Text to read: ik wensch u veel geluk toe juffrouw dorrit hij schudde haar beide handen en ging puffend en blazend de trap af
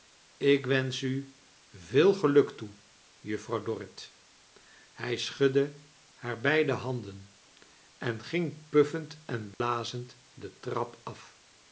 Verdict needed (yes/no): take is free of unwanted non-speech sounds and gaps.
no